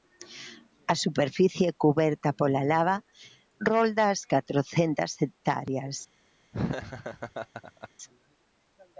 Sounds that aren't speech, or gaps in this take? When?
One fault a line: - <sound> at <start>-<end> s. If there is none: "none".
- laugh at 6.5-7.9 s